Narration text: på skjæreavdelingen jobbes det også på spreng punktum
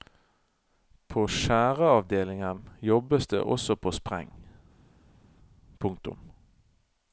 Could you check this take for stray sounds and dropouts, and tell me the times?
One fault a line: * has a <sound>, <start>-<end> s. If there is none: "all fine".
all fine